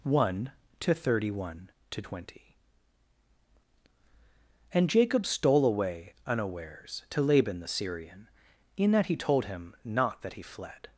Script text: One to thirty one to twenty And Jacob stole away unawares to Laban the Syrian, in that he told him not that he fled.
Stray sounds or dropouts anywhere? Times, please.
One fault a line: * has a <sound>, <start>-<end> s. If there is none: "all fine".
all fine